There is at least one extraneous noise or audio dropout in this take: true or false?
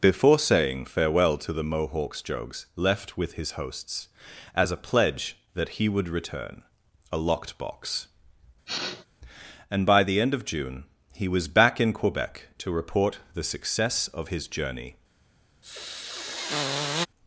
true